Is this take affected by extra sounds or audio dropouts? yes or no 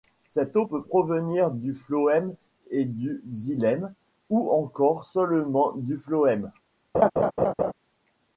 yes